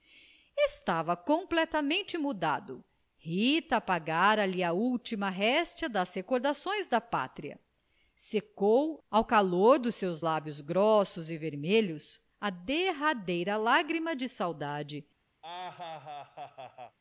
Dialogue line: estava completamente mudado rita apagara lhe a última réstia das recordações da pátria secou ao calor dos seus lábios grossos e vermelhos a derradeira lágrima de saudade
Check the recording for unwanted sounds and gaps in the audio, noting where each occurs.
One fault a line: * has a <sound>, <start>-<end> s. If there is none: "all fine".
* has a laugh, 15.4-17.0 s